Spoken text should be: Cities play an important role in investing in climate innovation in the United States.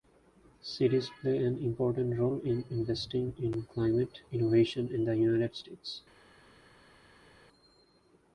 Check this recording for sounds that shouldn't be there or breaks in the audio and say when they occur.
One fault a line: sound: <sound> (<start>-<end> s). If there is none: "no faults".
no faults